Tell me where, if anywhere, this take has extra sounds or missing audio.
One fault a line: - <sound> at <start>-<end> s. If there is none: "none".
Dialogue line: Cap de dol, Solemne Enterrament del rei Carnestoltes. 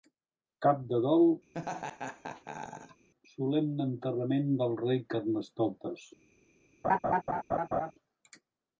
- laugh at 1.5-3.1 s
- laugh at 6.8-7.9 s